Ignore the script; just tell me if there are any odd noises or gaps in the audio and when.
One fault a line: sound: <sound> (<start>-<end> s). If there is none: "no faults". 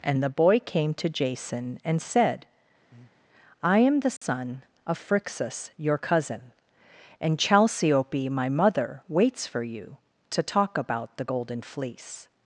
sound: breath (2.9-3.2 s)
sound: dropout (4.2-4.2 s)